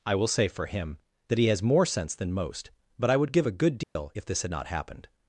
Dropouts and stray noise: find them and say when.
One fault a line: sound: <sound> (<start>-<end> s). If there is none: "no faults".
sound: dropout (3.8-4.0 s)